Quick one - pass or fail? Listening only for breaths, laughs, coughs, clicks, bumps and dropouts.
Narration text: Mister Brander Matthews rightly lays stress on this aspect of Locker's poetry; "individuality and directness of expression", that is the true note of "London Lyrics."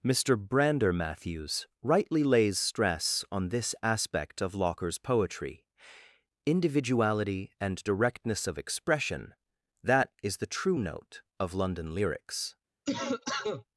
fail